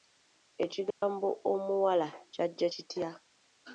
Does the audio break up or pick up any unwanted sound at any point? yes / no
yes